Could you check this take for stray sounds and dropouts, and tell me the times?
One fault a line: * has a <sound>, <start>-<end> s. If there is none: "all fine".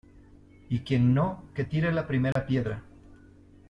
* has a dropout, 2.3-2.4 s